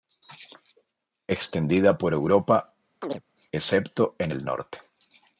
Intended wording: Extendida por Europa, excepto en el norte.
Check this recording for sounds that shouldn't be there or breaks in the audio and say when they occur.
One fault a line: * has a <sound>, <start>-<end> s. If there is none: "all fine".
* has a chirp, 3.0-3.2 s